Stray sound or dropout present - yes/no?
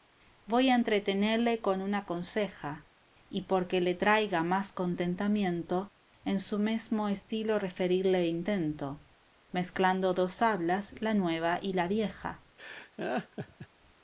yes